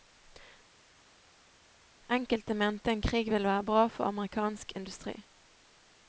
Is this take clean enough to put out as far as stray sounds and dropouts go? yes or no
yes